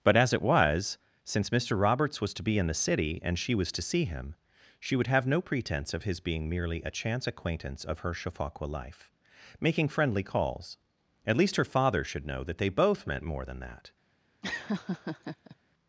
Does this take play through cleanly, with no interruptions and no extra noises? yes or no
no